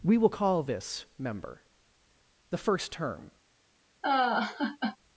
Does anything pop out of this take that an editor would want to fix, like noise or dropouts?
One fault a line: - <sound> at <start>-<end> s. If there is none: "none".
- laugh at 4.0-5.0 s